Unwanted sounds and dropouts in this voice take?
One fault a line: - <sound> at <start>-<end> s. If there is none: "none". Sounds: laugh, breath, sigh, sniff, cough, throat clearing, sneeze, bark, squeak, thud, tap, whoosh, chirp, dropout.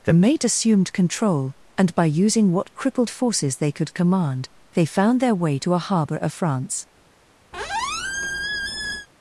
- squeak at 7.5-9.1 s